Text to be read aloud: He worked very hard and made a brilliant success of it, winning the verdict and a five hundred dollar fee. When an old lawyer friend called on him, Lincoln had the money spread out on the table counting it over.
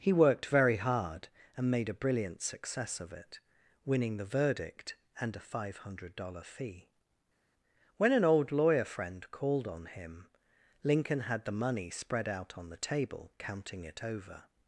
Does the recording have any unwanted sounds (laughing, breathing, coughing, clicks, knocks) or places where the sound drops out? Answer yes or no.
no